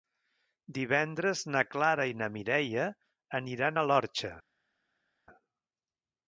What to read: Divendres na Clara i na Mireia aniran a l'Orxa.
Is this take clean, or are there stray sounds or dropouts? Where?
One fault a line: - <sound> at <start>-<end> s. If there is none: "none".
none